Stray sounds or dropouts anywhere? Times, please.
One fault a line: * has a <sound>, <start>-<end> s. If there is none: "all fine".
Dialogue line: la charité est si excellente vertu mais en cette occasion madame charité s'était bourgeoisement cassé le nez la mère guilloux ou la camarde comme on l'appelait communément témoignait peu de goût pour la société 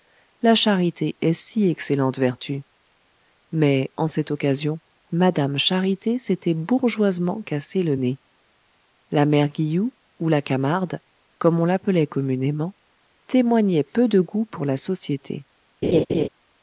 * has a laugh, 15.8-16.3 s